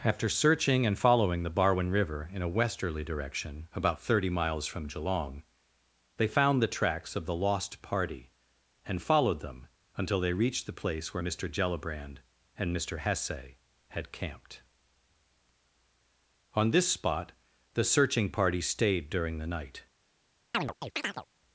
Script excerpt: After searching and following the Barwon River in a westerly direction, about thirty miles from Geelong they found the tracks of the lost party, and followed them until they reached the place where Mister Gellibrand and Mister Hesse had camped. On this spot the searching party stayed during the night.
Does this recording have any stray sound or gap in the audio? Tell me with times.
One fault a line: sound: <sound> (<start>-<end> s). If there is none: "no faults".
sound: chirp (20.5-21.3 s)